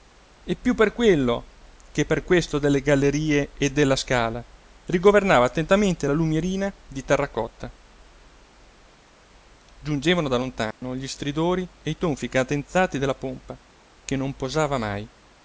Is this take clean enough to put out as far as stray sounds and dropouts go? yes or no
no